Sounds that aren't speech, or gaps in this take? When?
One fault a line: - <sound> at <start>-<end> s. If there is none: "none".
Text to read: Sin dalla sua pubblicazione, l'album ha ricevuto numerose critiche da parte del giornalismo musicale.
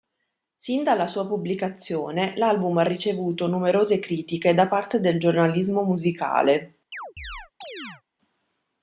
- chirp at 6.9-8.0 s